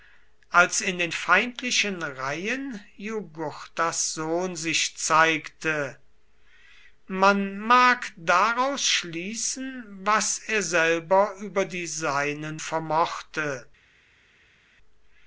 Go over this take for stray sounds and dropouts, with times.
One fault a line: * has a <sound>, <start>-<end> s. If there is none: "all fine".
all fine